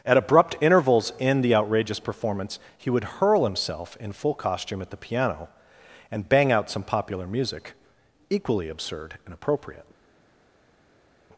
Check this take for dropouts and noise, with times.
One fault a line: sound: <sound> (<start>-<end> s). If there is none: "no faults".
no faults